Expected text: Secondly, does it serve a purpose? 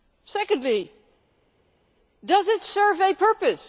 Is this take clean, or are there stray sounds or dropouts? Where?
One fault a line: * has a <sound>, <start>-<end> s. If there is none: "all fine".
all fine